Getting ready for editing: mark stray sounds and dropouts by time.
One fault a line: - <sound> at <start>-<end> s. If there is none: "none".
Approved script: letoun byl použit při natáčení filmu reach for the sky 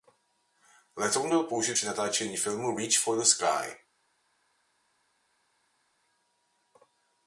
none